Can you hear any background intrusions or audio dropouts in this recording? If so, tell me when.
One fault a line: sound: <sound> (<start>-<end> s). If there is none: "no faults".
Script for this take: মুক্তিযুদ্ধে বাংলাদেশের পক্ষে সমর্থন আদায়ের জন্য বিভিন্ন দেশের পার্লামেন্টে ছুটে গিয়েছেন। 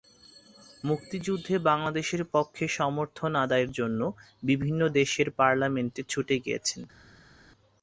no faults